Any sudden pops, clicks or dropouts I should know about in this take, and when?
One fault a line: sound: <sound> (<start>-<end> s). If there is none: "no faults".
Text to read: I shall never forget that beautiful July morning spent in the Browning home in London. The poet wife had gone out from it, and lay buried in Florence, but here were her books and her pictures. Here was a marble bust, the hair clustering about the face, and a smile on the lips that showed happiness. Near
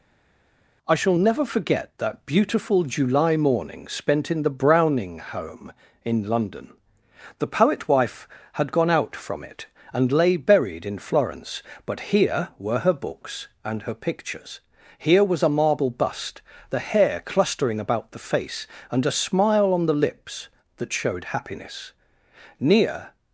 no faults